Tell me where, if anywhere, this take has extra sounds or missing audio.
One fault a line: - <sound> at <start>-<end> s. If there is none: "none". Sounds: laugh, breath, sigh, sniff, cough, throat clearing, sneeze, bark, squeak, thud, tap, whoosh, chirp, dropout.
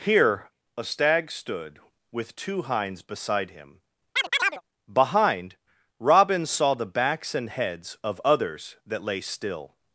- chirp at 4.2-4.6 s